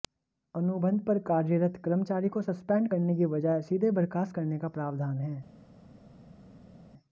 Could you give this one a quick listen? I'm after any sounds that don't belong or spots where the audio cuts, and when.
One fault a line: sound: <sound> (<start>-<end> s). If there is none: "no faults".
no faults